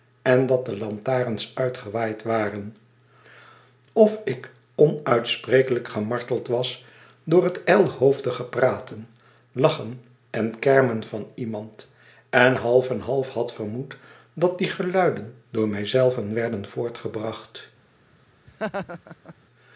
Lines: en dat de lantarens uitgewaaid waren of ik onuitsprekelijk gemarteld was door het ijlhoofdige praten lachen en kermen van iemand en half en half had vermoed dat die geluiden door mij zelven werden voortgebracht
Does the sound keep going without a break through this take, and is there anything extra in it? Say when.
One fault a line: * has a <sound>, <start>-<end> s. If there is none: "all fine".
* has a laugh, 18.5-19.3 s